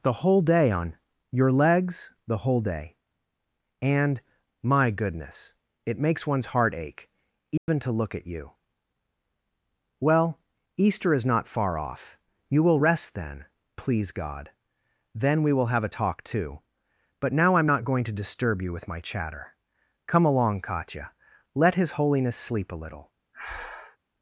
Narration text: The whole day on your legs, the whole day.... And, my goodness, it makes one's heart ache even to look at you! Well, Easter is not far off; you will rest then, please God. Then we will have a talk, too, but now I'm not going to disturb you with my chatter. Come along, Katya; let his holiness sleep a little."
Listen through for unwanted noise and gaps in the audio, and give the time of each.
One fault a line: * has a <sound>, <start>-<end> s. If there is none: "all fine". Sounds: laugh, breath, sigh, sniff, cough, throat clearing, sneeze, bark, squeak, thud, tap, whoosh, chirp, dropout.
* has a dropout, 7.6-7.7 s
* has a breath, 23.3-24.0 s